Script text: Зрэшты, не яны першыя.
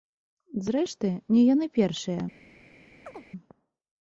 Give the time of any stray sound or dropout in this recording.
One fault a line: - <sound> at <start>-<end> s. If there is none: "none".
- chirp at 3.1-3.3 s